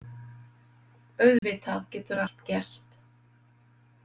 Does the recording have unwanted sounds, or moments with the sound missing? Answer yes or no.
yes